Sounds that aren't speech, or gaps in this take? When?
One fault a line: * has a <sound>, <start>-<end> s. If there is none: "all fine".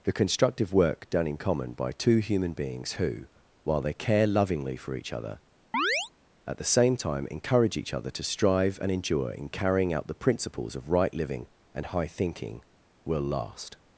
* has a chirp, 5.7-6.1 s